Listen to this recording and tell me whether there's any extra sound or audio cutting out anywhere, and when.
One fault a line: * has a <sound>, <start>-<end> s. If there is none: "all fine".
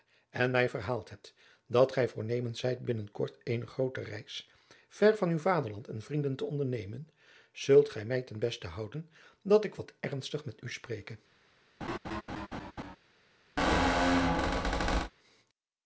* has a laugh, 11.8-13.0 s
* has a squeak, 13.6-15.1 s